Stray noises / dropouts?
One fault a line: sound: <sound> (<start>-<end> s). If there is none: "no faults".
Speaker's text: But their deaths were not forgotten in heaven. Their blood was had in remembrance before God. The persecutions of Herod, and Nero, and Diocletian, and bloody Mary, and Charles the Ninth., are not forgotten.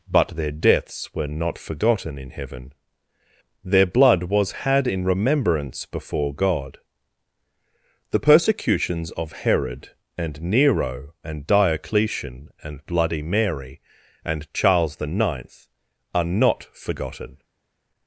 no faults